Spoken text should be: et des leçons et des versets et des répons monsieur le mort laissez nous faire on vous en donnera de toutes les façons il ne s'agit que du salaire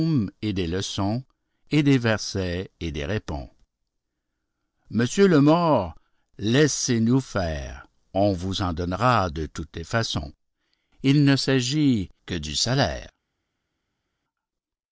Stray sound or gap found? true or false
false